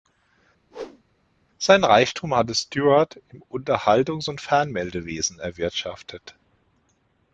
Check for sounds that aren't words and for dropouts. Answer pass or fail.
fail